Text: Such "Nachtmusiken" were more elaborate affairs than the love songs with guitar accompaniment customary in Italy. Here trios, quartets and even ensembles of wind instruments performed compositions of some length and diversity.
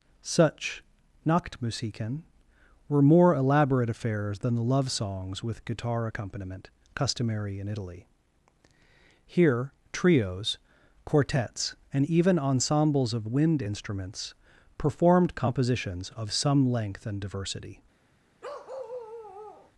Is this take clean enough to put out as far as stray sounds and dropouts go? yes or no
no